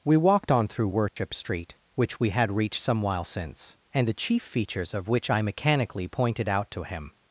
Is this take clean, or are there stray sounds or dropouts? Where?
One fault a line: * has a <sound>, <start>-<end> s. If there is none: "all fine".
* has a dropout, 1.1-1.2 s